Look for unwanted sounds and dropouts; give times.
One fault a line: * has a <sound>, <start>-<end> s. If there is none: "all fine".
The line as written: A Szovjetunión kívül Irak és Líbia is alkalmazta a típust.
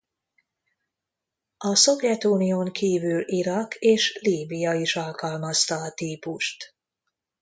all fine